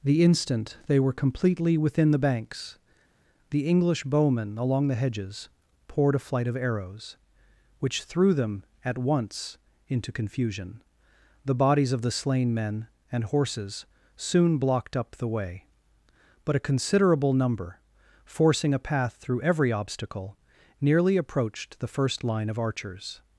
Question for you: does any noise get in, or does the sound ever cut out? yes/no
no